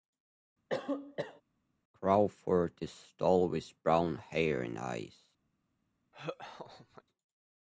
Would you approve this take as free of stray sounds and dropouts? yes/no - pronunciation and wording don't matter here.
no